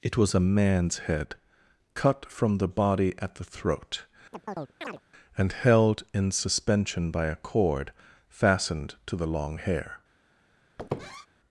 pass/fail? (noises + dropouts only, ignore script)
fail